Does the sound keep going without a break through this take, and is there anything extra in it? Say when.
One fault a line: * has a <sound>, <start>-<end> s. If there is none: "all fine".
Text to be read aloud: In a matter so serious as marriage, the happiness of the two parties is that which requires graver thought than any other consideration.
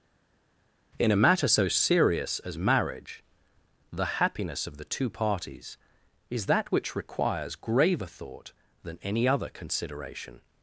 all fine